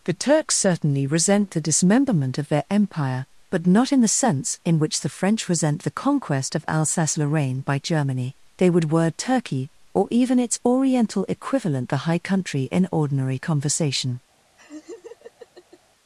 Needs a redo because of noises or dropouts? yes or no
yes